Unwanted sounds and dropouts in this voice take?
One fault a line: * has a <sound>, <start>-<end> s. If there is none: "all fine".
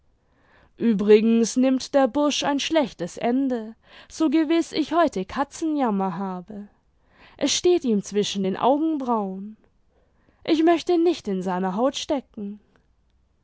all fine